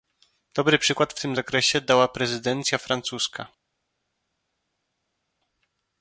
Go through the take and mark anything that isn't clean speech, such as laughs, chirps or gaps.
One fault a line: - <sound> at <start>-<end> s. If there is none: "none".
none